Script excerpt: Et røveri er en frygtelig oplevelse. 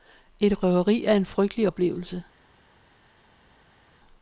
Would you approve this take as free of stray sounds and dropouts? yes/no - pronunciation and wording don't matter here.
yes